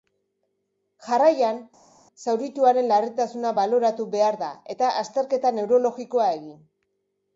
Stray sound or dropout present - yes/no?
no